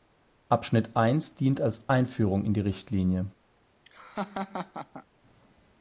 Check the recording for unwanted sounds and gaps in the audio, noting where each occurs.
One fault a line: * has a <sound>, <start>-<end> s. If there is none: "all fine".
* has a laugh, 3.9-5.1 s